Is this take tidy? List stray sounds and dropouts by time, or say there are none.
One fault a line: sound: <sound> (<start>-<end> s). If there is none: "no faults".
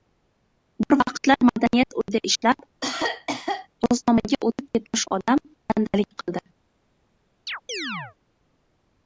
sound: cough (2.8-3.7 s)
sound: chirp (7.5-8.2 s)